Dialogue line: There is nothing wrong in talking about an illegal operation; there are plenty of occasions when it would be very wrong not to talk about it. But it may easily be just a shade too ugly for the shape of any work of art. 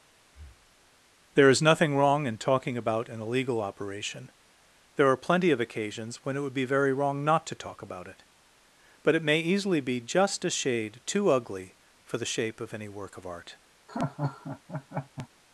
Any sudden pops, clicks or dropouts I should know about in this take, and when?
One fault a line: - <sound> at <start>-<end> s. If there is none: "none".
- breath at 0.2-0.9 s
- laugh at 13.9-15.3 s